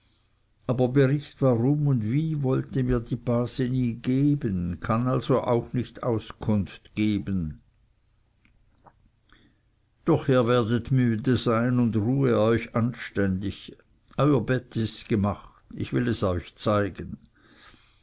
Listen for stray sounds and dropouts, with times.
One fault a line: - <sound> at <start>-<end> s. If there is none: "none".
none